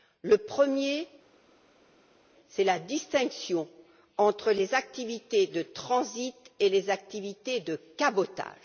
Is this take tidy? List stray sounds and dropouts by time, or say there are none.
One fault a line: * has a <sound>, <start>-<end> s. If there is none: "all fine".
all fine